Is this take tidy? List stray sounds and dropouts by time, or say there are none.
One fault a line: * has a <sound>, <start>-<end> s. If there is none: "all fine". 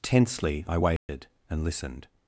* has a dropout, 1.0-1.1 s